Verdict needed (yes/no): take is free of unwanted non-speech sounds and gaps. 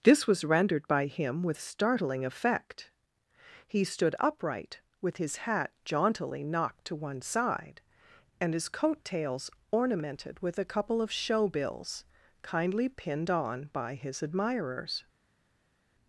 yes